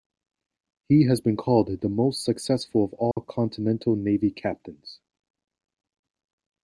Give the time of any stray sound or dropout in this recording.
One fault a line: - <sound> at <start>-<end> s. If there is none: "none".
- dropout at 3.1-3.2 s